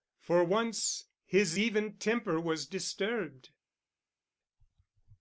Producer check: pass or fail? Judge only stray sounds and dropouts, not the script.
pass